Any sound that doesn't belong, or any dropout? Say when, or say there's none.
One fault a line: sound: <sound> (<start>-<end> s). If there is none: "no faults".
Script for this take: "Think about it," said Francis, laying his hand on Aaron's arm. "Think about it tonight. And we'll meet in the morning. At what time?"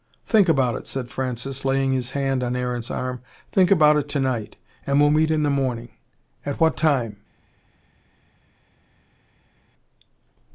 no faults